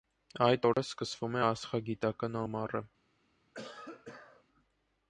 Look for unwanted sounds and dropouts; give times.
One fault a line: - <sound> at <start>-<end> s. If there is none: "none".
- dropout at 0.7-0.8 s
- cough at 3.5-4.4 s